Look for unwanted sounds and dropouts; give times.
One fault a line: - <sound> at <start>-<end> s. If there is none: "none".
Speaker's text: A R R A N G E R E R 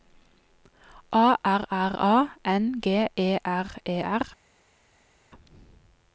none